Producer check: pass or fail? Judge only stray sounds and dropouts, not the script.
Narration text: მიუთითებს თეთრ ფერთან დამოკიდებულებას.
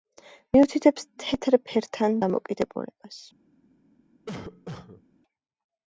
fail